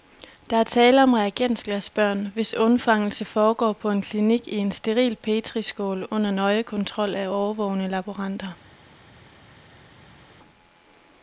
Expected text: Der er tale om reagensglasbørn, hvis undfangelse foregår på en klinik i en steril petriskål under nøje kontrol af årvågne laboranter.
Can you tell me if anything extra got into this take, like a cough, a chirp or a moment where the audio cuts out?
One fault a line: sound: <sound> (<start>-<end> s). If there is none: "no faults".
no faults